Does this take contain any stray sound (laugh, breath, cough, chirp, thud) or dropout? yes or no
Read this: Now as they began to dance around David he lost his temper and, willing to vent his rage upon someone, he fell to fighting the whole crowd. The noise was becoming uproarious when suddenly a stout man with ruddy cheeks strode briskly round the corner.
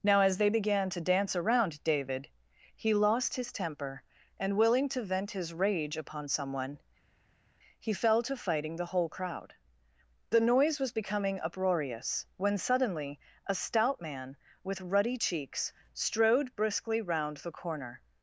no